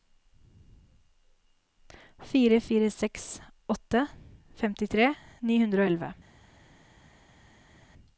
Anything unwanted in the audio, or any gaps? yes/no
no